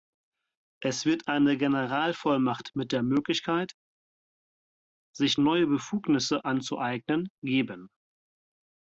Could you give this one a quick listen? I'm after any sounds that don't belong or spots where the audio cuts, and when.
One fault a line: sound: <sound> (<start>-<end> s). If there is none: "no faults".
no faults